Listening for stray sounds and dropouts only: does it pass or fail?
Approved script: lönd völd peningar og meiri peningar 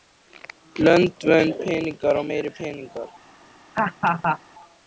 fail